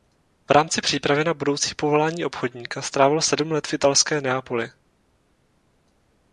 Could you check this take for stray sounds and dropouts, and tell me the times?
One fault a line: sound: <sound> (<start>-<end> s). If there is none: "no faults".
no faults